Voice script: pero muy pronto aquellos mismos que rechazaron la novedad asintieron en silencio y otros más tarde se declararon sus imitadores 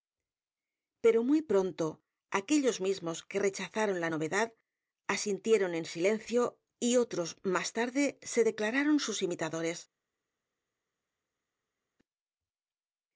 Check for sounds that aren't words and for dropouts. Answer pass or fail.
pass